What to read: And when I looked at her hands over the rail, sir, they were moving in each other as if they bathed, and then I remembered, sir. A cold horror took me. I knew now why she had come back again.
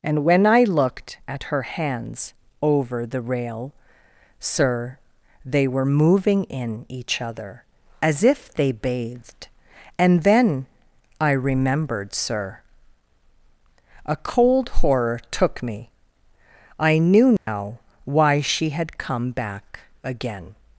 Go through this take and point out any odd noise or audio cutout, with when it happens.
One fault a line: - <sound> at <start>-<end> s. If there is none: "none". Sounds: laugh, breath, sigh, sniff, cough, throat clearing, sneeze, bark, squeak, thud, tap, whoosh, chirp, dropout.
- dropout at 17.4-17.5 s